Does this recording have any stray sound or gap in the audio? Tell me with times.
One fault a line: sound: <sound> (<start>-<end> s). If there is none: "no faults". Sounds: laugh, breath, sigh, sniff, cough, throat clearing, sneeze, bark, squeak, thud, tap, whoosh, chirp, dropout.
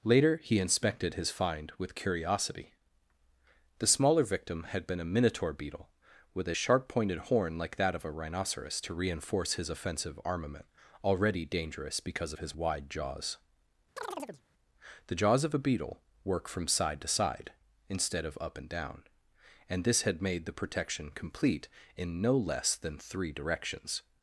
sound: chirp (14.0-14.4 s)